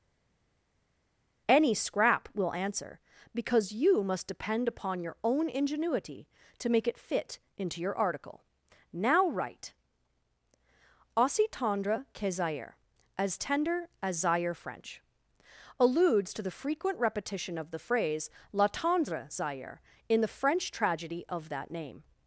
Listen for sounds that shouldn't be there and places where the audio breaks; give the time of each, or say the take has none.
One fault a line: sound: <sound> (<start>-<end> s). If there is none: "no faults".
no faults